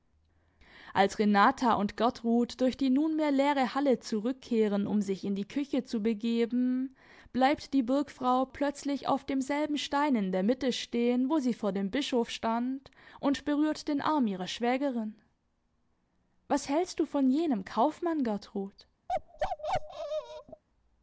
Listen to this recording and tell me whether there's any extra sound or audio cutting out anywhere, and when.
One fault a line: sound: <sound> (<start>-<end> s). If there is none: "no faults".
sound: bark (19.1-20.6 s)